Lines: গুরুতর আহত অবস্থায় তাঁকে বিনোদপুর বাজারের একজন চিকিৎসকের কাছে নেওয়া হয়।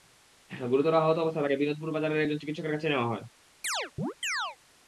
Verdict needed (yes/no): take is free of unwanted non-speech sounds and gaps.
no